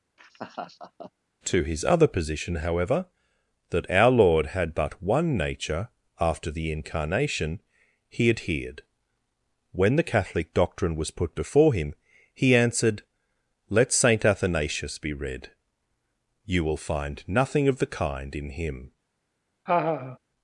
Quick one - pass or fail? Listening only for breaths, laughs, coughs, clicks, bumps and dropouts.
fail